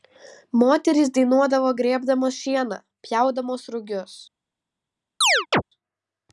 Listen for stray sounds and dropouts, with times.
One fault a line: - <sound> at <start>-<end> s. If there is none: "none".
- chirp at 5.2-5.6 s